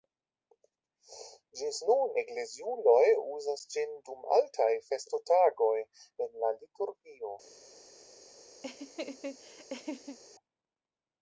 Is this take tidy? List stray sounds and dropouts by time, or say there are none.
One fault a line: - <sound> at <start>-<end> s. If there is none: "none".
- laugh at 8.6-10.2 s